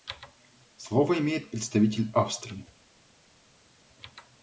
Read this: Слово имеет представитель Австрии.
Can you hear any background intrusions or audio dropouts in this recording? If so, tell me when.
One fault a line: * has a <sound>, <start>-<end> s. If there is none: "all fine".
all fine